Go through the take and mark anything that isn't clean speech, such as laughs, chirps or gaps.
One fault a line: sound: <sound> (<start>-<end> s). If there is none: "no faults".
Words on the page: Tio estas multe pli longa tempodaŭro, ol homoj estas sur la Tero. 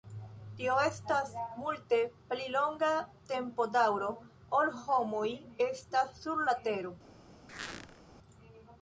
sound: squeak (7.5-8.0 s)